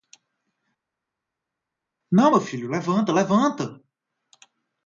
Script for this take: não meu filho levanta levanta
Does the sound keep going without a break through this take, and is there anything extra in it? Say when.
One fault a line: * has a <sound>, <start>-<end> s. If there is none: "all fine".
all fine